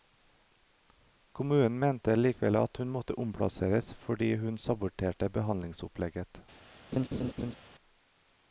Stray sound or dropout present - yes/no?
yes